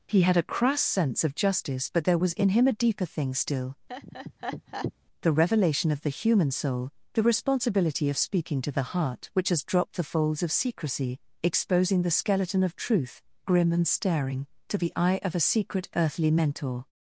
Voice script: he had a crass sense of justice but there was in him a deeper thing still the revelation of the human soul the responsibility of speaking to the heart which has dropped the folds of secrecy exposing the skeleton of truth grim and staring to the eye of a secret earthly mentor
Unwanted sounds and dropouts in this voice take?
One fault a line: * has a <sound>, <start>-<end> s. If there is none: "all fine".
* has a laugh, 3.9-4.9 s